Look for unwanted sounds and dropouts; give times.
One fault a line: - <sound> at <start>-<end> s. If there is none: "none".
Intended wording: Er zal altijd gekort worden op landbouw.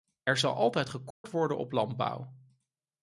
- dropout at 1.1-1.2 s